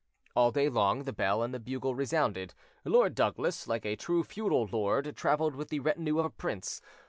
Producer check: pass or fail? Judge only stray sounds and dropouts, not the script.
pass